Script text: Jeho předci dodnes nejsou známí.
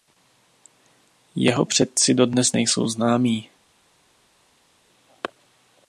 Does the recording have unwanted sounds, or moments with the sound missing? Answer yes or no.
no